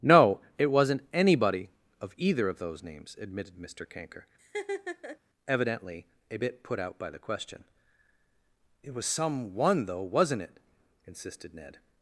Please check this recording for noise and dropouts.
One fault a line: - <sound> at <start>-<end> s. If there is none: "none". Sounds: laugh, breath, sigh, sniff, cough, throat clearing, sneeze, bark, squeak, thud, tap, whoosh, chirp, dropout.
- laugh at 4.4-5.2 s